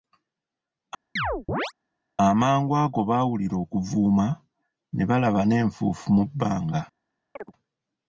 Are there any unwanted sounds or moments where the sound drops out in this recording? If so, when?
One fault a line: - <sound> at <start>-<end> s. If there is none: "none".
- chirp at 1.2-1.7 s
- chirp at 7.4-7.5 s